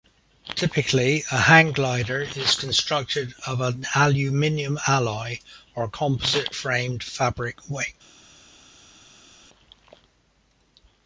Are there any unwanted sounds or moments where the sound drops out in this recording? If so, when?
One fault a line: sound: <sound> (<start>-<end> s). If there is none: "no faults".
no faults